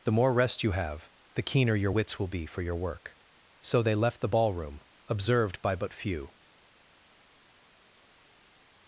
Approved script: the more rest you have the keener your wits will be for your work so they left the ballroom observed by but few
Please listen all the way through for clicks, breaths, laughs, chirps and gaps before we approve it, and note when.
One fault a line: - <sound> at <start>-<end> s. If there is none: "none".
none